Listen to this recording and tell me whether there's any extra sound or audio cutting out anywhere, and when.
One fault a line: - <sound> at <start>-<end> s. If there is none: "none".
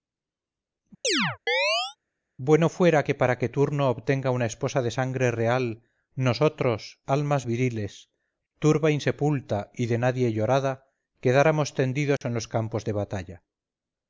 - chirp at 1.0-2.0 s
- dropout at 12.2-12.2 s